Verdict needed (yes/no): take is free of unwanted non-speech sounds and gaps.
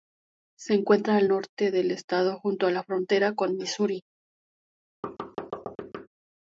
no